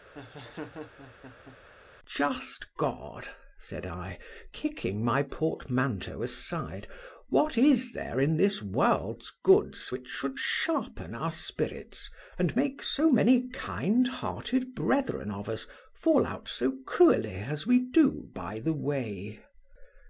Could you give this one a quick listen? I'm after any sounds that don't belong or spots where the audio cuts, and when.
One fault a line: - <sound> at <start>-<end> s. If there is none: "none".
- laugh at 0.1-1.6 s